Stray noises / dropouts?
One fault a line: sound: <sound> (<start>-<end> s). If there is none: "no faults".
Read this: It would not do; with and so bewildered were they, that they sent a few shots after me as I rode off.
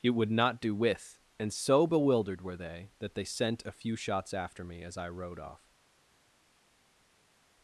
no faults